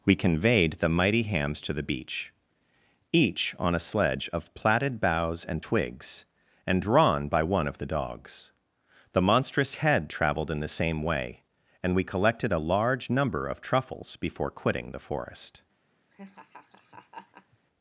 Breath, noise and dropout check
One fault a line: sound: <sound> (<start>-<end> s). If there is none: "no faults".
sound: laugh (16.1-17.6 s)